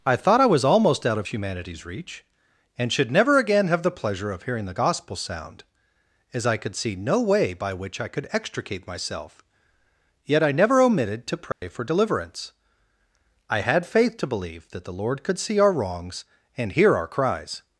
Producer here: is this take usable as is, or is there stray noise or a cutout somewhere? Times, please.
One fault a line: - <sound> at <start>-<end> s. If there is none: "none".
- dropout at 11.5-11.6 s